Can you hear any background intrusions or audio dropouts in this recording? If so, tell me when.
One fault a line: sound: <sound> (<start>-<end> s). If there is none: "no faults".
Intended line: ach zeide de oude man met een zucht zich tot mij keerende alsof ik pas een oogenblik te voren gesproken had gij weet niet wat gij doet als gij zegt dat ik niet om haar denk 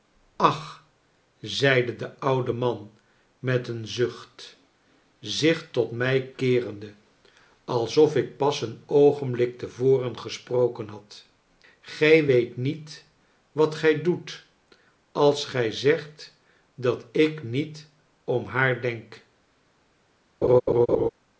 sound: laugh (20.4-21.1 s)